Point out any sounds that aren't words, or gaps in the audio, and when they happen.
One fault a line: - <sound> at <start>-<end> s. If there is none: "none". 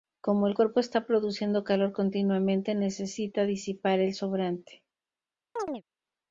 - chirp at 5.6-5.8 s